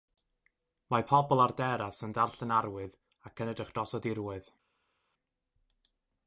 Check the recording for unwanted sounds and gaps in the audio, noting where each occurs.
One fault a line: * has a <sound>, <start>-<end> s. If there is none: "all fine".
all fine